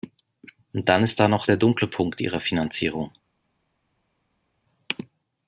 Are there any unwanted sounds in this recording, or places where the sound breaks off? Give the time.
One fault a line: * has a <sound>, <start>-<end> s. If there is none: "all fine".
all fine